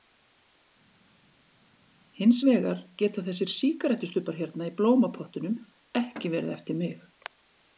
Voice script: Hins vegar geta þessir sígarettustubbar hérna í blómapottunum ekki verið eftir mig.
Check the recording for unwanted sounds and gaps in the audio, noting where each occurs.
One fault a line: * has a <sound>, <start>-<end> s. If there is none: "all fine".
all fine